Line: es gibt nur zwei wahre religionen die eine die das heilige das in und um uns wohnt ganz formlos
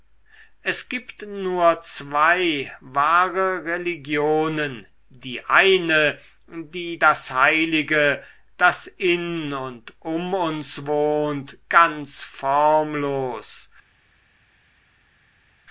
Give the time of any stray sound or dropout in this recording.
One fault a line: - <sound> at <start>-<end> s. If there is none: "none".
none